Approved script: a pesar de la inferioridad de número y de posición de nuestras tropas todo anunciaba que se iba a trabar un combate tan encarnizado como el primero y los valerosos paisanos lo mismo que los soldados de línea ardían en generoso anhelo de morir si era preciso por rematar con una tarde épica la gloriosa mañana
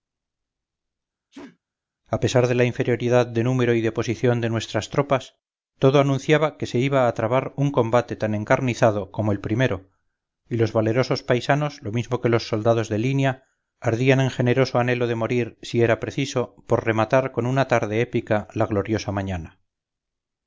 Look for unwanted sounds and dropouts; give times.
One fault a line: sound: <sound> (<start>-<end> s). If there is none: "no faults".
sound: sneeze (1.3-1.6 s)